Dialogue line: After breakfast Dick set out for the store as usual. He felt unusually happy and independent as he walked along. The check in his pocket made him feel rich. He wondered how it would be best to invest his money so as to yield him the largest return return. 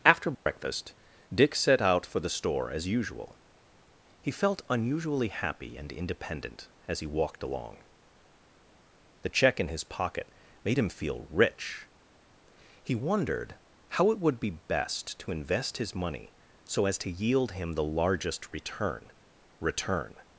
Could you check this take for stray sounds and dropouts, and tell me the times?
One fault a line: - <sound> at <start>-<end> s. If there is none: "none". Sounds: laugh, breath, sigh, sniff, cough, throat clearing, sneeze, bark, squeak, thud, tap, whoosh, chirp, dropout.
- dropout at 0.3-0.5 s